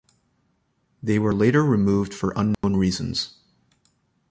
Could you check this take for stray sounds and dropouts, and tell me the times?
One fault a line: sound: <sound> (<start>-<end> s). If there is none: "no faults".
sound: dropout (2.5-2.6 s)